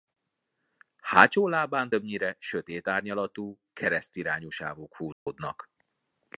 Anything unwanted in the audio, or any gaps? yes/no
yes